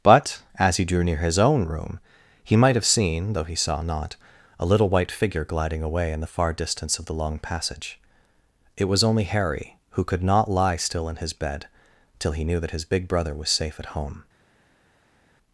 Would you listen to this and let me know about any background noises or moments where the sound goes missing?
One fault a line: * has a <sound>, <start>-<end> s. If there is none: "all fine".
all fine